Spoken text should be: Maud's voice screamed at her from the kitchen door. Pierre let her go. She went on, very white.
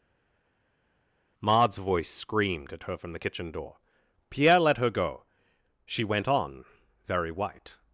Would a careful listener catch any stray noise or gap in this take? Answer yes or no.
no